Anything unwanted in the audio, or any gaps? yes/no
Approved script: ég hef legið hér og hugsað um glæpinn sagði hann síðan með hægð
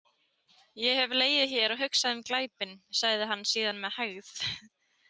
no